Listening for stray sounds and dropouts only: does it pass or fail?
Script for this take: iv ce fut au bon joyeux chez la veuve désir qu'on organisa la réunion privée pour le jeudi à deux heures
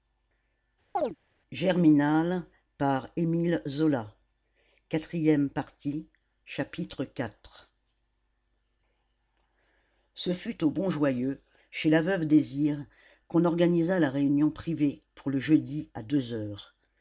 fail